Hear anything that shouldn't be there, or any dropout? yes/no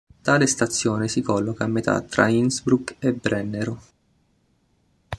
no